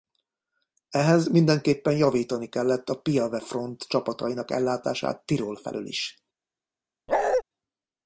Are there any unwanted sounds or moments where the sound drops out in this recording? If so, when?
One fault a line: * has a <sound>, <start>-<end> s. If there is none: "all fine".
* has a bark, 7.1-7.4 s